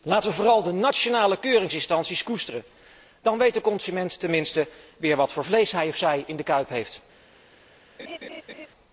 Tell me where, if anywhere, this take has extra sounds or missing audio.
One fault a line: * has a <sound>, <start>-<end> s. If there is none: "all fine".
* has a laugh, 8.0-8.7 s